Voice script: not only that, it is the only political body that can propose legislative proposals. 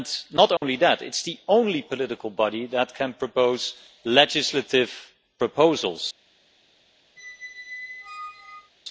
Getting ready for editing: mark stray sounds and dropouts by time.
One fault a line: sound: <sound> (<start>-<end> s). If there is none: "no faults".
sound: dropout (0.6-0.6 s)
sound: squeak (7.2-8.7 s)